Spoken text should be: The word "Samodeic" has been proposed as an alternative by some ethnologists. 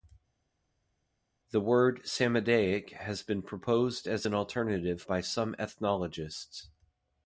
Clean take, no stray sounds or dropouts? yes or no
yes